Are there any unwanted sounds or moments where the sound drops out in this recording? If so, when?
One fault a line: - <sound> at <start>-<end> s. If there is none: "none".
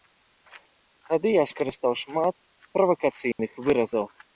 - dropout at 3.3-3.4 s